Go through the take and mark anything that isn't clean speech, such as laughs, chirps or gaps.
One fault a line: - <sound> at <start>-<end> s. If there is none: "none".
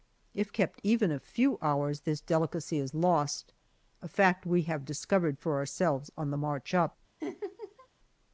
- laugh at 7.2-7.9 s